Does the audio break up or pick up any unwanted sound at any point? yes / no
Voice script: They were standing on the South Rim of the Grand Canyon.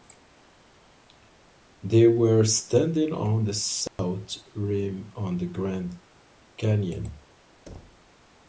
yes